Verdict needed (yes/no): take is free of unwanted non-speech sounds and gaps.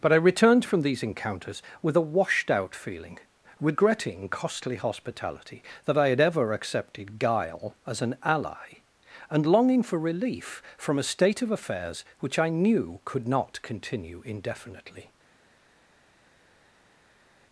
yes